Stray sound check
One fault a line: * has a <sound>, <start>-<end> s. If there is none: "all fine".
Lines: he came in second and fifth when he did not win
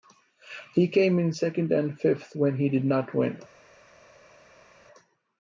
all fine